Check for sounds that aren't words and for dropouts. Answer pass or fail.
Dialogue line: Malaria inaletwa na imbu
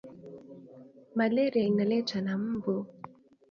pass